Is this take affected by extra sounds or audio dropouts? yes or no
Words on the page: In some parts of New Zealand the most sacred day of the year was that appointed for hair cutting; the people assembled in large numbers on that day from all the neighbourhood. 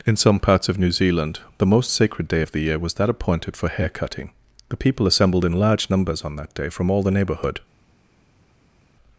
no